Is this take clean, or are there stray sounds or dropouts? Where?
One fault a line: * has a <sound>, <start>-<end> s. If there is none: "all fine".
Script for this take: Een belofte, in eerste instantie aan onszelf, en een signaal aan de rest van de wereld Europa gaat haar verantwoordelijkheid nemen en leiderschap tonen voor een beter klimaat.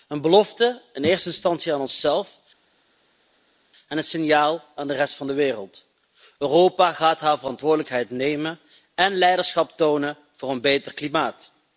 all fine